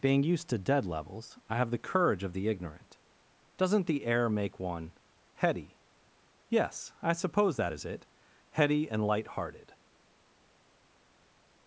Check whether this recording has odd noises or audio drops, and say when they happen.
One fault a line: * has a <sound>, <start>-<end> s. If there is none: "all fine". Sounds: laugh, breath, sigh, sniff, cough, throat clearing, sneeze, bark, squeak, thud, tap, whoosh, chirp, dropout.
all fine